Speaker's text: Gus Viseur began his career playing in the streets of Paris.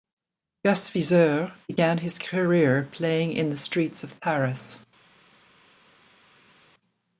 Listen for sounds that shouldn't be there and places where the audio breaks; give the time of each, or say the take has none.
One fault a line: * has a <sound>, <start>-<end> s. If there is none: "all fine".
all fine